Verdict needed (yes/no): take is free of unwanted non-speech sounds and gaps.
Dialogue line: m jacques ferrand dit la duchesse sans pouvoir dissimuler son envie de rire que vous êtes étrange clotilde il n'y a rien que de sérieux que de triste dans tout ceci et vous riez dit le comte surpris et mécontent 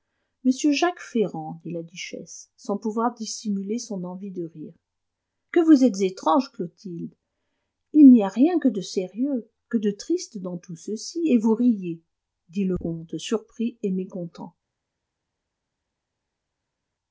yes